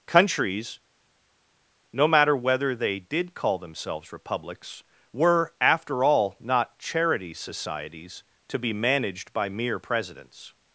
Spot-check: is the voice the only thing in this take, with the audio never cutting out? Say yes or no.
yes